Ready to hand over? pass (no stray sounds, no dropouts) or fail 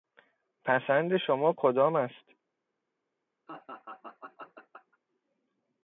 fail